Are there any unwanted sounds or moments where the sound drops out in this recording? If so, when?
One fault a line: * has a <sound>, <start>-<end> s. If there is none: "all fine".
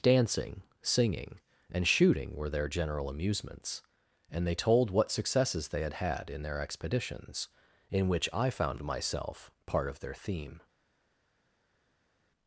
all fine